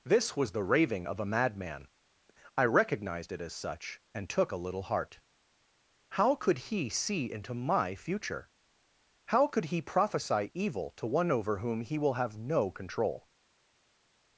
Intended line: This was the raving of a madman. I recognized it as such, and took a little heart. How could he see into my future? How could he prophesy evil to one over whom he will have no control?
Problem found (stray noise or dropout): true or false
false